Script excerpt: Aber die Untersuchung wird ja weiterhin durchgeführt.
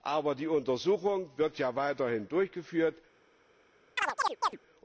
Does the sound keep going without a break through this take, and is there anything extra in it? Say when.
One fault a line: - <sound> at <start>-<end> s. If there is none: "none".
- chirp at 4.0-4.6 s